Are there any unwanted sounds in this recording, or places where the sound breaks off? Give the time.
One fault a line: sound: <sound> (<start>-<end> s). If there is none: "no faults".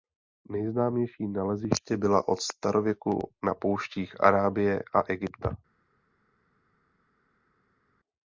no faults